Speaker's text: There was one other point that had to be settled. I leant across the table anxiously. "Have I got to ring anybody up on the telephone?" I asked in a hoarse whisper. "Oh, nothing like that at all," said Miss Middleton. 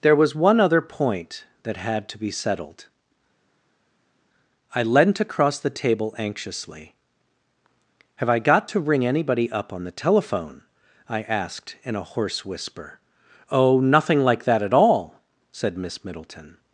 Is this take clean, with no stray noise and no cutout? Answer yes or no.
yes